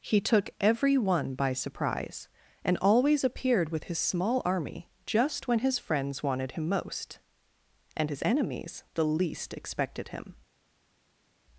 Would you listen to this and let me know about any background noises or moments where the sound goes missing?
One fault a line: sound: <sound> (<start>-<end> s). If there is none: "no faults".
no faults